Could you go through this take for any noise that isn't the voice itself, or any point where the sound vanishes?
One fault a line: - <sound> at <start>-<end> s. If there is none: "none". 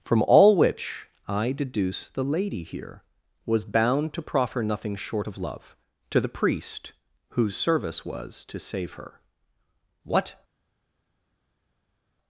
none